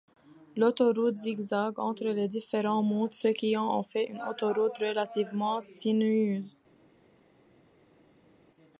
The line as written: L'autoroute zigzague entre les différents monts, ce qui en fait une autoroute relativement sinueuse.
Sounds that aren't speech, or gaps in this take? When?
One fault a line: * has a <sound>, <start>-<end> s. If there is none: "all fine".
all fine